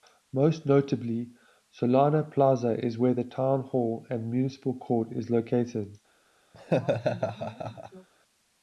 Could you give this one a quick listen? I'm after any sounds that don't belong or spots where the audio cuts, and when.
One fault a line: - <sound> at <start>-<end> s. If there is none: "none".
- laugh at 6.5-8.1 s